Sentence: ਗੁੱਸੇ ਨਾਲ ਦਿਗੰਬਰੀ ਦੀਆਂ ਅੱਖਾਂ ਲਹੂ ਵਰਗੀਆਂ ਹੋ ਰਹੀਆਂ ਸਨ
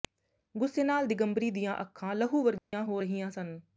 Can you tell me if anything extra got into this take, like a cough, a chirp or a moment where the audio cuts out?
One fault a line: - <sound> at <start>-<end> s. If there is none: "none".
- dropout at 2.6-2.7 s